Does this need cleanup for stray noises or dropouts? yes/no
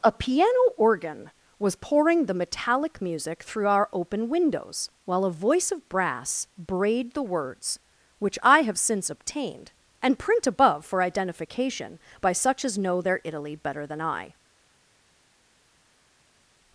no